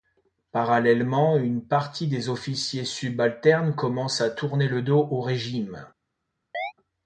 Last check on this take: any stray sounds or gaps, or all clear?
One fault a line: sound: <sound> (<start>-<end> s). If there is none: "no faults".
sound: chirp (6.5-6.7 s)